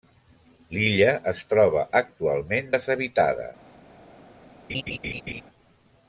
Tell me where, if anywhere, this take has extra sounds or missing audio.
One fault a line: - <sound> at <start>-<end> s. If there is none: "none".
- laugh at 4.7-5.4 s